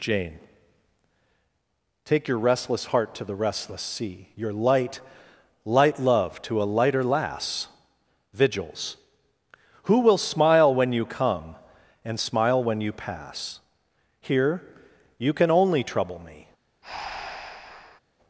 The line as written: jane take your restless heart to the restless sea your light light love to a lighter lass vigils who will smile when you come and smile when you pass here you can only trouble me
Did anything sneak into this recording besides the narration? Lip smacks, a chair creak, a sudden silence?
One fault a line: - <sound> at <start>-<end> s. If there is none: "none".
- breath at 16.8-18.0 s